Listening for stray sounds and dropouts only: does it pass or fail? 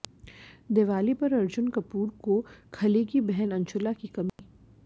fail